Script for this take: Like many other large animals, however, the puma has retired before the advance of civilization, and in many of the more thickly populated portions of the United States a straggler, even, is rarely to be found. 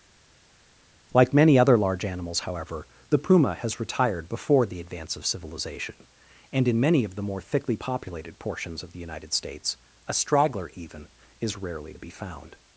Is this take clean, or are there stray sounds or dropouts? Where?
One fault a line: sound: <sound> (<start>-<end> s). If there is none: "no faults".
no faults